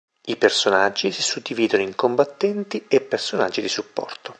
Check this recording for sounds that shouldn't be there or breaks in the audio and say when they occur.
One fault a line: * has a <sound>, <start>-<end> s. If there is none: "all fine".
all fine